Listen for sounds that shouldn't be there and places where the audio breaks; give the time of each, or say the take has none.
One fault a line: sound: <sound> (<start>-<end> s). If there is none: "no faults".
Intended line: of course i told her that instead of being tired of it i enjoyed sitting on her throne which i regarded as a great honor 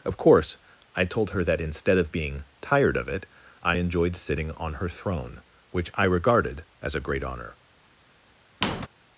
sound: squeak (8.6-8.9 s)